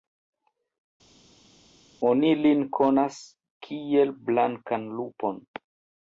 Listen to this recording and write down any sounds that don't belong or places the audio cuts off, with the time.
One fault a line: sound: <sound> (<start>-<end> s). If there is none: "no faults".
no faults